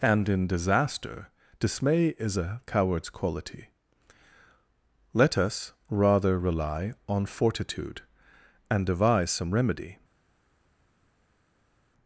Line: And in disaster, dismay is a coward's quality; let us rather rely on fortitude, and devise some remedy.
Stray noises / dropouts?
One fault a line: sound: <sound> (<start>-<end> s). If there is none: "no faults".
no faults